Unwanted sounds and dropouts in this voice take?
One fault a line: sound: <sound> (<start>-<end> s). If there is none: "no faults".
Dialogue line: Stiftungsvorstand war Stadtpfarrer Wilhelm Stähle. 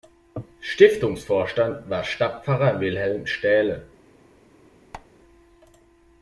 sound: squeak (4.9-5.1 s)